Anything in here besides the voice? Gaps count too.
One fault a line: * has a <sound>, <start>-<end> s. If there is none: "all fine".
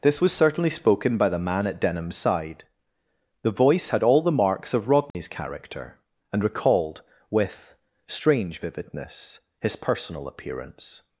* has a dropout, 5.1-5.1 s